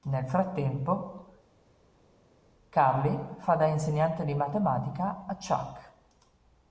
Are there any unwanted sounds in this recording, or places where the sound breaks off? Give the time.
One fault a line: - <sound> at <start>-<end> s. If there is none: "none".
none